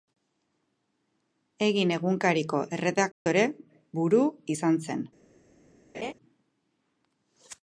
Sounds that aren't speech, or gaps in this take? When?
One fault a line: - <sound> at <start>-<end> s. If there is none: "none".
- dropout at 3.1-3.3 s
- laugh at 5.9-6.1 s